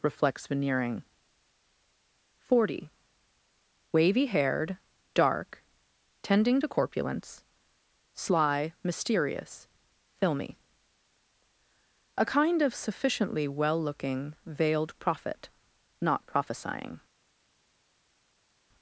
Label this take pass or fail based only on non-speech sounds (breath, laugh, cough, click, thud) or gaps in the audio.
pass